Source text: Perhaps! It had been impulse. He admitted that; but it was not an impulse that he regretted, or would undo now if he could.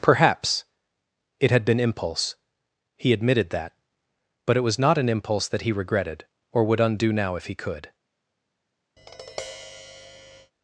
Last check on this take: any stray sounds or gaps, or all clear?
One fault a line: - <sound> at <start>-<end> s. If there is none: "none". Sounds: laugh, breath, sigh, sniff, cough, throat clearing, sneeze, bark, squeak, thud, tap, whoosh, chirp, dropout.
- tap at 9.0-10.5 s